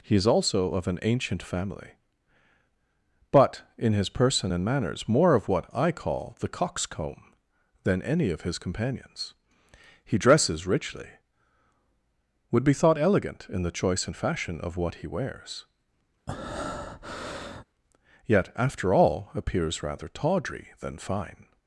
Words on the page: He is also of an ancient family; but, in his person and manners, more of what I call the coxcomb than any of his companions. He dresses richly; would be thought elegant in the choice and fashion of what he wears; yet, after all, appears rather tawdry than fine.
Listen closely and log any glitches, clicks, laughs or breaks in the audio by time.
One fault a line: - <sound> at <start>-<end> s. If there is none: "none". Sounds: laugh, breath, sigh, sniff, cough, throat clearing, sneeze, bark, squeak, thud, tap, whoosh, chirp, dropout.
- breath at 16.3-17.6 s